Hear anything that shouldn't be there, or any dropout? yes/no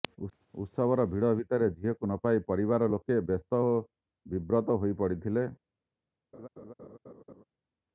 yes